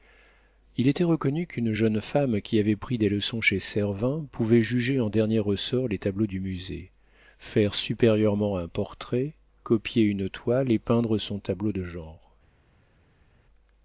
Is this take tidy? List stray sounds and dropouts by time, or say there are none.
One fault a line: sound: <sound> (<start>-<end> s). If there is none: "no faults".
no faults